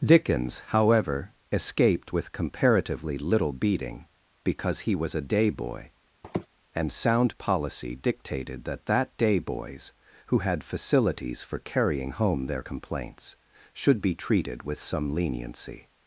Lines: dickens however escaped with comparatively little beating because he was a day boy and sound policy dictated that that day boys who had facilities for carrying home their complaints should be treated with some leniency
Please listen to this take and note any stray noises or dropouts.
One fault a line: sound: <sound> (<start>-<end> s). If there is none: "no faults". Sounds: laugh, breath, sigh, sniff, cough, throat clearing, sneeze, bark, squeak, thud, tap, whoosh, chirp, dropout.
sound: sniff (6.2-6.5 s)